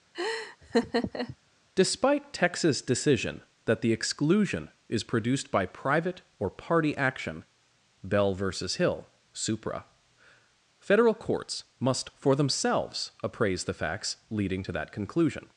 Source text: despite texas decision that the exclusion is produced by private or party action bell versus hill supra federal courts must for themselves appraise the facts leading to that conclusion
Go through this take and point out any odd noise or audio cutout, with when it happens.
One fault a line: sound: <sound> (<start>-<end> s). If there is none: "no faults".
sound: laugh (0.1-1.4 s)